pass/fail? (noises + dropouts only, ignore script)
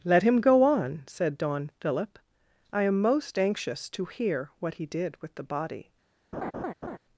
fail